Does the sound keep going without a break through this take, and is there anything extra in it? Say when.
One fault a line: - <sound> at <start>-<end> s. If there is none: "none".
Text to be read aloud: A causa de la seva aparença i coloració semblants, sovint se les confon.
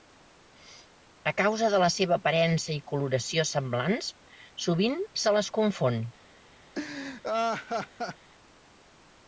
- laugh at 6.7-8.3 s